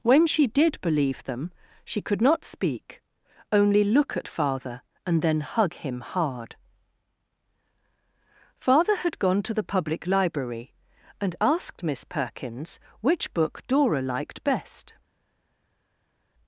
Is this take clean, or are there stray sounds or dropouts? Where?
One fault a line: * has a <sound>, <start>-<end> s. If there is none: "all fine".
all fine